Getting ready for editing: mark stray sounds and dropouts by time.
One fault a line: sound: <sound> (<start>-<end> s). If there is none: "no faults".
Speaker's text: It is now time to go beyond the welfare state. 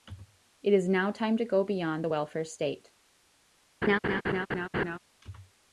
sound: laugh (3.8-5.0 s)